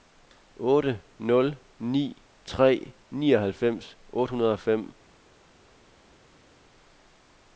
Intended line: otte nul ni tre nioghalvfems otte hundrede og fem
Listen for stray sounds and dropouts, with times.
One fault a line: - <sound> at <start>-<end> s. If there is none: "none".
none